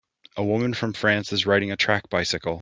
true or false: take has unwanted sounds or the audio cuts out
false